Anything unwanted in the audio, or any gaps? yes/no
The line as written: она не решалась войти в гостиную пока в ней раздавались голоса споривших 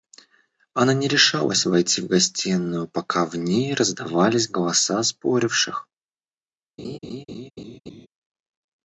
yes